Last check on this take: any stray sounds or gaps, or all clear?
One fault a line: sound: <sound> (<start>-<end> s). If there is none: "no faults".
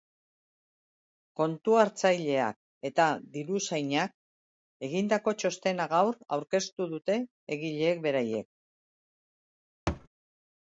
sound: thud (9.9-10.1 s)